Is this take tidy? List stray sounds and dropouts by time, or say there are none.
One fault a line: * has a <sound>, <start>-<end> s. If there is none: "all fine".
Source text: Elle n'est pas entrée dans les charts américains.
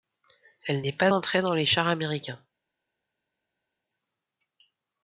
all fine